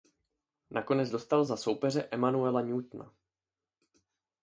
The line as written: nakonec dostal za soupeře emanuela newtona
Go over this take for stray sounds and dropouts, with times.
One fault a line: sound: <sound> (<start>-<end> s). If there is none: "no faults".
no faults